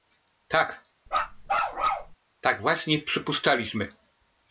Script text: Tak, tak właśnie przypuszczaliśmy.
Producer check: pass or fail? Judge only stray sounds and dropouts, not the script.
fail